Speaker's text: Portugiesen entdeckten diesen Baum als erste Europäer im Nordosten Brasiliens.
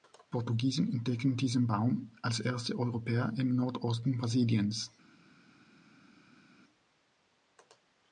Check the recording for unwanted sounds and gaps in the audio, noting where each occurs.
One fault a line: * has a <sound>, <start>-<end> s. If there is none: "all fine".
all fine